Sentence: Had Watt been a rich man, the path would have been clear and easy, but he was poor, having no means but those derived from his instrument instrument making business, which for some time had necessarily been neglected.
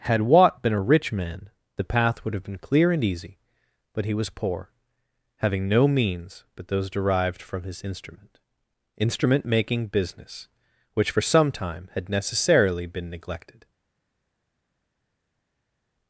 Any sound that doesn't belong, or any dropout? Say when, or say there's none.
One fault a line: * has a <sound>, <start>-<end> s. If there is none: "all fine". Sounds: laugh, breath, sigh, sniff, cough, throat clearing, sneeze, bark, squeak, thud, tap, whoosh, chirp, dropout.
all fine